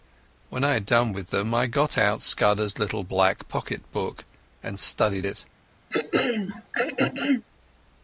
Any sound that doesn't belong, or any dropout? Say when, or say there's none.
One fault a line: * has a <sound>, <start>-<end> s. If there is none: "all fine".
* has a throat clearing, 5.9-7.5 s